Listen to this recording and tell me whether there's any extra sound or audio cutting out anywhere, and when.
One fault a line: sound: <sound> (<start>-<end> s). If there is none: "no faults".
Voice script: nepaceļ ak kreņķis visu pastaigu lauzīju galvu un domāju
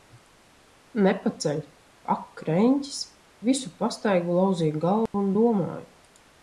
sound: dropout (5.1-5.1 s)